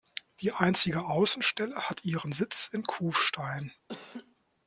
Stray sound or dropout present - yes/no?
yes